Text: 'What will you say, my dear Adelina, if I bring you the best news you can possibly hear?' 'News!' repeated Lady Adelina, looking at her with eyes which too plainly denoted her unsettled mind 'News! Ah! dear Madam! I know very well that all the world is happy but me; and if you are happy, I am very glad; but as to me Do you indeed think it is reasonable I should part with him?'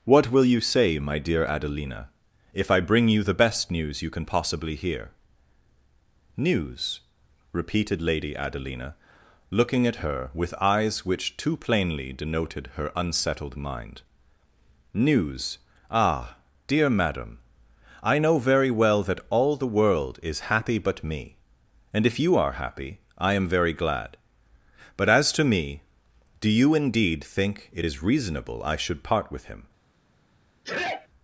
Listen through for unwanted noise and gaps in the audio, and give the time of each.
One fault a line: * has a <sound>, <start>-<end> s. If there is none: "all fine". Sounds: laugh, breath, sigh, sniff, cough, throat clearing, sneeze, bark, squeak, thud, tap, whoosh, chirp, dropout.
* has a sneeze, 30.6-31.1 s